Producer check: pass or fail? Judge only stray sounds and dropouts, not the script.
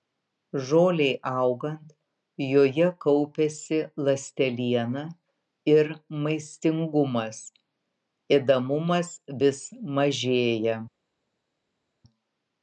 pass